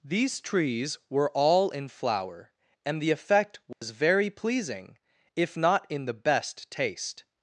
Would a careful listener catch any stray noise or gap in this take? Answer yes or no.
yes